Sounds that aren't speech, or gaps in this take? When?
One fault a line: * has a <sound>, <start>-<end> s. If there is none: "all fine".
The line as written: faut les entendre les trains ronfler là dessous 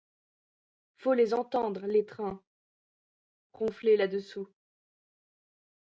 all fine